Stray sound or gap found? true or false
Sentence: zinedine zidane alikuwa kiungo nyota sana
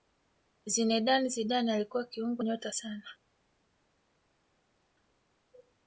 false